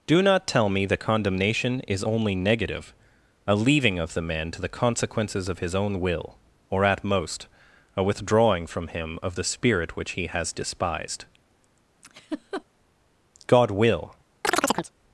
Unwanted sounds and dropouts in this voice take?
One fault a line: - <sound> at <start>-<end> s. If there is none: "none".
- laugh at 12.0-12.6 s
- chirp at 14.4-14.9 s